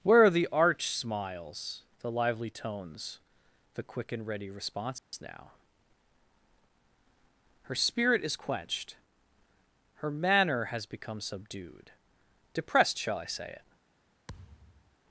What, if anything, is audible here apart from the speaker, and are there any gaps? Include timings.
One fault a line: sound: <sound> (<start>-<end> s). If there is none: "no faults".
sound: dropout (5.0-5.1 s)
sound: thud (14.3-15.0 s)